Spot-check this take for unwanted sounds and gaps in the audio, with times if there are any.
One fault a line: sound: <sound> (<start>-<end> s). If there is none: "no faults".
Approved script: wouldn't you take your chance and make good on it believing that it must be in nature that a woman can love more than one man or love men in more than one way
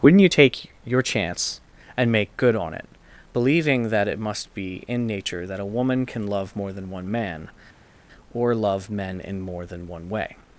no faults